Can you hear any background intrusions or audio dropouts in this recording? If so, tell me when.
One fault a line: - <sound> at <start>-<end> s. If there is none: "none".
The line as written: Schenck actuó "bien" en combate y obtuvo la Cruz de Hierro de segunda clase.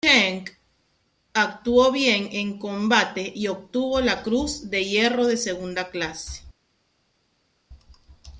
none